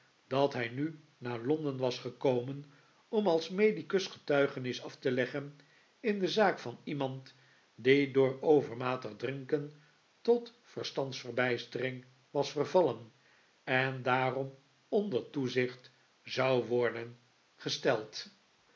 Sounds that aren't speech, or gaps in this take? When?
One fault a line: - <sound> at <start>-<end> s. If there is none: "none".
none